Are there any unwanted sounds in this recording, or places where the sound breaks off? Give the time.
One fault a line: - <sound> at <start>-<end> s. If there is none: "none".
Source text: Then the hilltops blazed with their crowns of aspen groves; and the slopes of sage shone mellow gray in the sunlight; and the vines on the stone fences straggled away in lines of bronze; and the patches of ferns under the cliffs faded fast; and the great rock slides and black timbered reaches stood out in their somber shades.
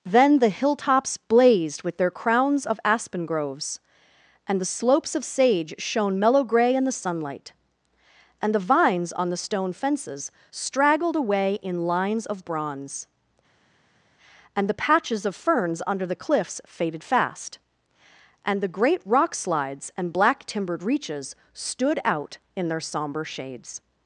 none